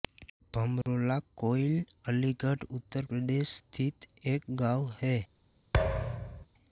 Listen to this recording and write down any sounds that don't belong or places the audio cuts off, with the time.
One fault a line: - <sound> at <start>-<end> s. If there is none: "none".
- dropout at 0.8-0.9 s
- thud at 5.7-6.5 s